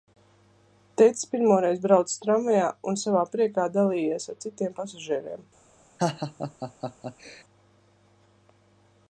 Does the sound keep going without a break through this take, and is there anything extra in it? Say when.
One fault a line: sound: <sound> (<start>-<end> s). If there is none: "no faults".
sound: laugh (6.0-7.4 s)